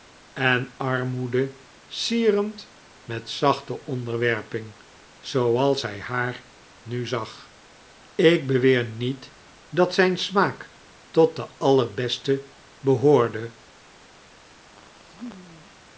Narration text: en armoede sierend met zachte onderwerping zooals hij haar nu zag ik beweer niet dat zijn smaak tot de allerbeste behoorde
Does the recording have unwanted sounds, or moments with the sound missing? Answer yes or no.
yes